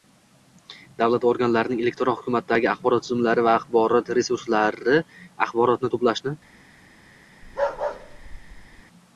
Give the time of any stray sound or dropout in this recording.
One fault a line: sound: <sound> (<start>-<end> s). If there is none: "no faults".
sound: bark (7.4-8.8 s)